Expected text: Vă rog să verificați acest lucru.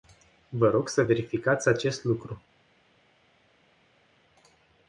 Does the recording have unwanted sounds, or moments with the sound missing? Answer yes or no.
no